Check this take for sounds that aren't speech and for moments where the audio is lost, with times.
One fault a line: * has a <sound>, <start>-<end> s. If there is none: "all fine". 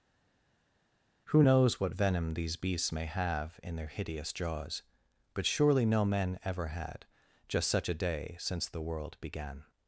all fine